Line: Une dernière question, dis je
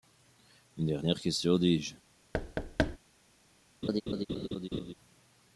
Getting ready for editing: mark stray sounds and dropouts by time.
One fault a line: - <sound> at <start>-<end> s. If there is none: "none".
- thud at 2.3-3.0 s
- laugh at 3.8-4.9 s